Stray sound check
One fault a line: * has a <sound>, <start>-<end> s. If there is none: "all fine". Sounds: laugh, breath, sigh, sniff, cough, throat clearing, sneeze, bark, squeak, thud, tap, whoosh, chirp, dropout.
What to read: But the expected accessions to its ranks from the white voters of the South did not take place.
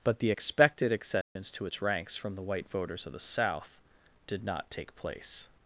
* has a dropout, 1.2-1.4 s